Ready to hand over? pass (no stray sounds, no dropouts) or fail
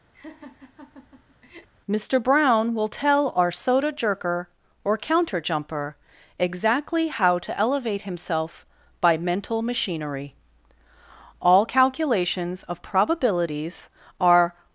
fail